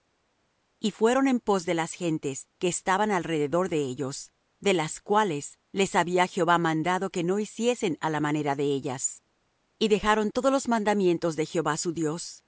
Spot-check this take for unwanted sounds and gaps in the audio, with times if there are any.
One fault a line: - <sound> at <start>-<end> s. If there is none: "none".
none